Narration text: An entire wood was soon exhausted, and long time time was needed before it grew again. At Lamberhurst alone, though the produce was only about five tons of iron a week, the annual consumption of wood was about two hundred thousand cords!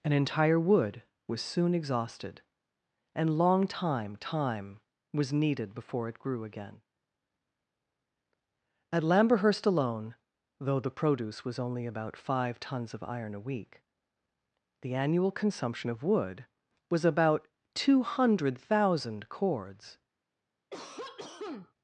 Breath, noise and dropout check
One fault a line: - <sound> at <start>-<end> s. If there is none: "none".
- cough at 20.7-21.7 s